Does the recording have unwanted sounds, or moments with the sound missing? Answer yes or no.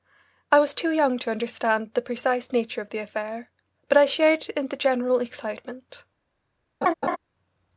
yes